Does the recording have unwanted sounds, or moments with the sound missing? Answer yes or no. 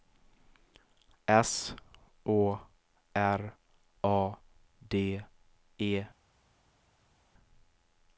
no